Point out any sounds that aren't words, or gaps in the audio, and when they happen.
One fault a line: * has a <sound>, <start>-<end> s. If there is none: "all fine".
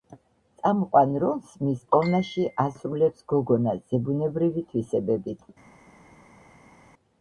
all fine